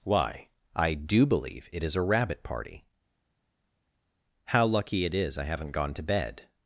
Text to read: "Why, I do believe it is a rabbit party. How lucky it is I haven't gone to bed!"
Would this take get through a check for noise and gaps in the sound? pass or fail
pass